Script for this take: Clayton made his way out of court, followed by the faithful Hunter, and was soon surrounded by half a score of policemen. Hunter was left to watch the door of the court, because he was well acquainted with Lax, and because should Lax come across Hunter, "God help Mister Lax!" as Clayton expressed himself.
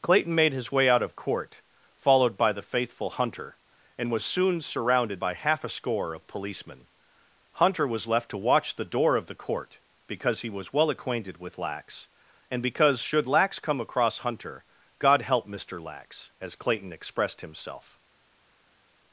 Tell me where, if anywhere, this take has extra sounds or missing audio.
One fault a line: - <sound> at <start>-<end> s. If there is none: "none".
none